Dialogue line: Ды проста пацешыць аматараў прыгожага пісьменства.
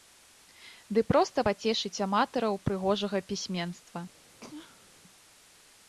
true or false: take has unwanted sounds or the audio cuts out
true